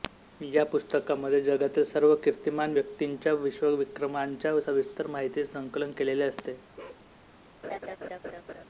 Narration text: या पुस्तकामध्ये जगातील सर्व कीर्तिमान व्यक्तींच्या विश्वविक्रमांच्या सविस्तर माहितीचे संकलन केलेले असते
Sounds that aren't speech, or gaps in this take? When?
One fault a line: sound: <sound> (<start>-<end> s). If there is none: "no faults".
sound: bark (6.8-7.1 s)
sound: laugh (7.6-8.6 s)